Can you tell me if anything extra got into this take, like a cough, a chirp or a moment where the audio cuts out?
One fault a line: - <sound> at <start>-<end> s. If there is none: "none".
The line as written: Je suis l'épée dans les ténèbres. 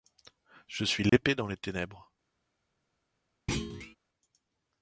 - dropout at 1.1-1.1 s
- thud at 3.5-4.0 s